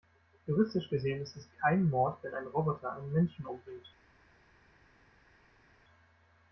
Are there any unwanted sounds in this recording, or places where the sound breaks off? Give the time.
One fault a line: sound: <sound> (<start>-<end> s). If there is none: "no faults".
no faults